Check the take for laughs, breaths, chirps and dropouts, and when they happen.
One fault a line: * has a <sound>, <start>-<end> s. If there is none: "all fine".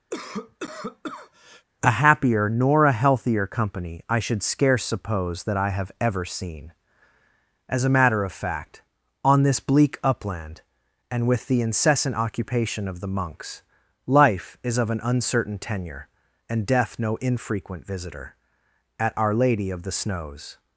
* has a cough, 0.1-1.6 s